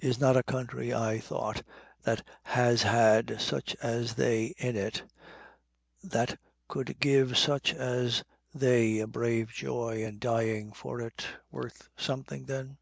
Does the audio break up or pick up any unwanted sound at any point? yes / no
no